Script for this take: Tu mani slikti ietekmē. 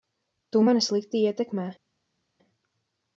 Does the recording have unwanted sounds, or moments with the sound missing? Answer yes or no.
no